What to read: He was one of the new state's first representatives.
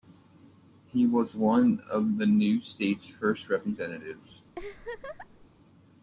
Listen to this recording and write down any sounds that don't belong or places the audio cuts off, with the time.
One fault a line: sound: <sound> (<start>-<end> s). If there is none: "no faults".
sound: laugh (4.5-5.5 s)